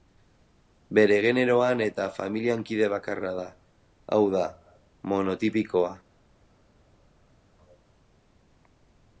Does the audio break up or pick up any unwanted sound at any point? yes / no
no